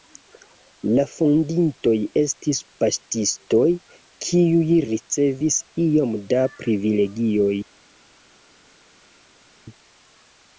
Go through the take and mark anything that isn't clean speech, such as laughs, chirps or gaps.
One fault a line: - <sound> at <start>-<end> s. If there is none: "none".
none